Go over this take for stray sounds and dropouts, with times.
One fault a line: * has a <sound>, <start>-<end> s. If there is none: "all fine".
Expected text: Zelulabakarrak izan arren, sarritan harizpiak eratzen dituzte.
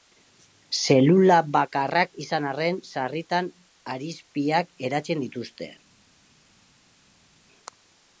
all fine